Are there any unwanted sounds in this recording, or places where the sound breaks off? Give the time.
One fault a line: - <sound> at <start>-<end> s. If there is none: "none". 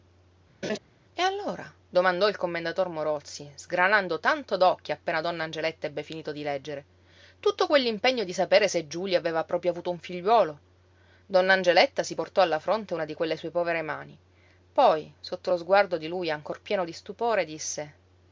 - laugh at 0.6-0.8 s